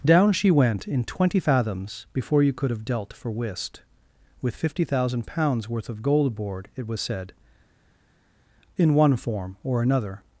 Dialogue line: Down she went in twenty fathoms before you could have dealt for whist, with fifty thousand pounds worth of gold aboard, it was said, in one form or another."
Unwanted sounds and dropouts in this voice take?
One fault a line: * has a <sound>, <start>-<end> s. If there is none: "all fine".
all fine